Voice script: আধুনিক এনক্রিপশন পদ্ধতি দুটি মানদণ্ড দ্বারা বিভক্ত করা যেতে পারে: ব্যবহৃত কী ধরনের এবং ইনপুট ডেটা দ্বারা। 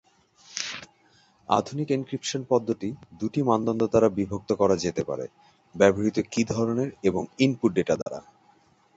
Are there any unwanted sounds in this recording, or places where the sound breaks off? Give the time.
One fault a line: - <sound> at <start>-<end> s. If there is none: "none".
- dropout at 8.0-8.1 s